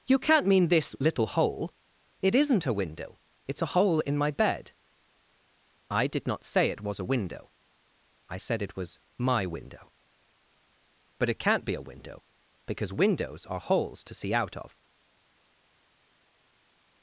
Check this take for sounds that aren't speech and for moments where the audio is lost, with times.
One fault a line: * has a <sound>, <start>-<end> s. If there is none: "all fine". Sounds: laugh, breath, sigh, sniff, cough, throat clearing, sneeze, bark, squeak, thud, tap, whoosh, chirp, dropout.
all fine